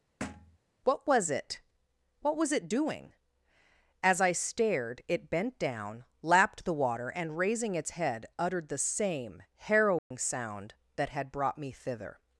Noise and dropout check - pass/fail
fail